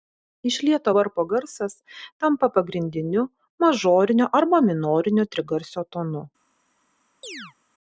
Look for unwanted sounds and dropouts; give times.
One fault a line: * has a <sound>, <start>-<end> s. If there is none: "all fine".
* has a chirp, 7.2-7.5 s